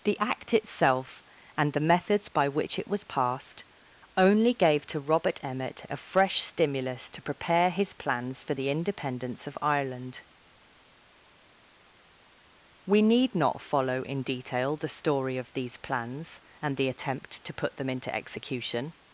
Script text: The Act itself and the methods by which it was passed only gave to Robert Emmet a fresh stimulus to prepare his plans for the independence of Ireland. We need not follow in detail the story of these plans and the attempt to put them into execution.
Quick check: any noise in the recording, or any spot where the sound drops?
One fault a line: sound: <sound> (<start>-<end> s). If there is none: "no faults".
no faults